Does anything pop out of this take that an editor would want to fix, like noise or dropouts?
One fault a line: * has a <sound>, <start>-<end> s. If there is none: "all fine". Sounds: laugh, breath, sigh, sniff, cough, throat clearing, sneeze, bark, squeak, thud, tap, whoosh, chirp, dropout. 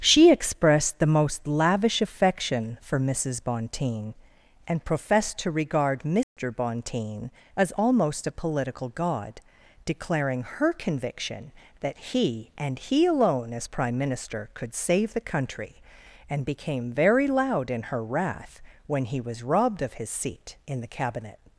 * has a dropout, 6.2-6.4 s